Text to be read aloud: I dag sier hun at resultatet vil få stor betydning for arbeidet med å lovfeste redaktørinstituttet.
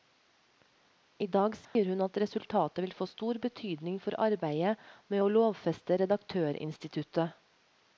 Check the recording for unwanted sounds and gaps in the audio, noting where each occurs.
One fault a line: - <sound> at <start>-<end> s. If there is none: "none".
- dropout at 1.6-1.8 s